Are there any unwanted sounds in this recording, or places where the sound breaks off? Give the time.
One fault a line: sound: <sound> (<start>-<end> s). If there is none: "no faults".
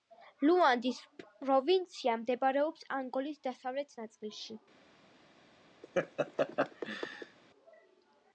sound: laugh (5.8-7.4 s)